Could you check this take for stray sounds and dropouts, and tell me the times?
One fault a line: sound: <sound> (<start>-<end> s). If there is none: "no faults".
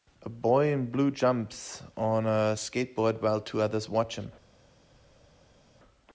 no faults